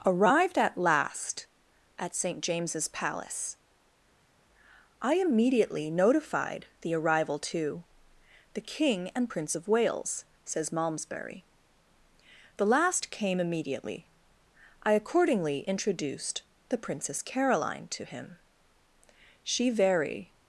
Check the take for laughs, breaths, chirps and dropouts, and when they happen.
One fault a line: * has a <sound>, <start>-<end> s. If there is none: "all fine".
all fine